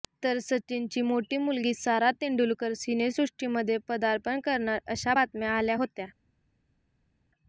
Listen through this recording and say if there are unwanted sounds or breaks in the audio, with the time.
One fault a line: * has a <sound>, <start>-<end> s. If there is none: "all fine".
all fine